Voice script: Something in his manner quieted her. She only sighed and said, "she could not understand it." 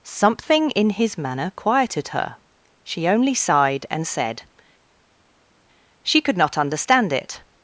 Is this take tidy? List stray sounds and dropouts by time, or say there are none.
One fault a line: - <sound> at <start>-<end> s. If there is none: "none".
none